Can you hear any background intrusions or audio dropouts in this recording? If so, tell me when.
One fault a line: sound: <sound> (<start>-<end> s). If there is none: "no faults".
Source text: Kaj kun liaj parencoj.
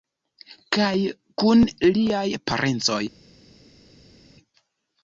no faults